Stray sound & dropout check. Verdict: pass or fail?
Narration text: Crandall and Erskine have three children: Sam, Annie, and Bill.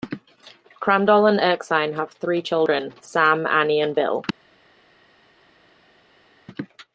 pass